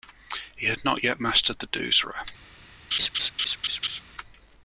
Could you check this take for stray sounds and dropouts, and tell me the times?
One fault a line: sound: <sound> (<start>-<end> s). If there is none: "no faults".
sound: laugh (2.9-4.0 s)